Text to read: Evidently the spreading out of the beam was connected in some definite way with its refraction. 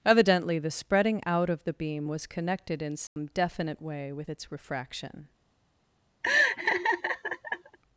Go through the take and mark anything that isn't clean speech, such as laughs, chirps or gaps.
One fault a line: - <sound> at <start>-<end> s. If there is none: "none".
- dropout at 3.1-3.2 s
- laugh at 6.2-7.8 s